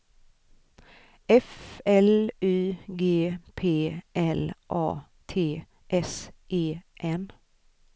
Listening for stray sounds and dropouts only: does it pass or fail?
pass